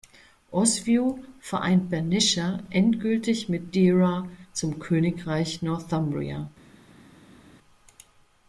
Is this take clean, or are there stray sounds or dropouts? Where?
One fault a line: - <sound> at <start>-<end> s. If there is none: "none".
none